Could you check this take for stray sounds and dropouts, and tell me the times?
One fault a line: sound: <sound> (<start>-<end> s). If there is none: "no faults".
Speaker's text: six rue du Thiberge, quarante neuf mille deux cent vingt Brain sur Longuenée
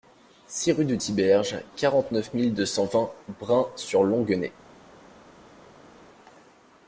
no faults